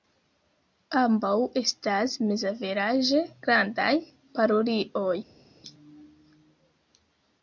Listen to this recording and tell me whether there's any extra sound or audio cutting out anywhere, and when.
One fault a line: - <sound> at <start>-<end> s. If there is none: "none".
none